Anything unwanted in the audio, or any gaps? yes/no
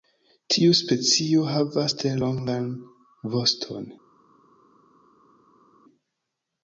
no